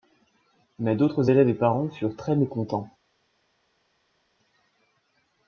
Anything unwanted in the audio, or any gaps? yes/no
no